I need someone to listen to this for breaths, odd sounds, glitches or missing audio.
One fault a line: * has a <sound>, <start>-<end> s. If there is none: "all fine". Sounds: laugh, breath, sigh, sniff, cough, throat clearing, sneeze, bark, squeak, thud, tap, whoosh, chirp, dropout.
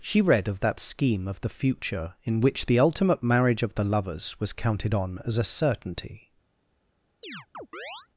* has a chirp, 7.2-8.1 s